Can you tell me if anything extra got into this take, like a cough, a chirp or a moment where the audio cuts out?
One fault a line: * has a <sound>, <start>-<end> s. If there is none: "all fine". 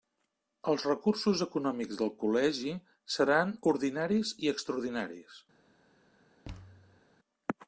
* has a thud, 6.4-7.0 s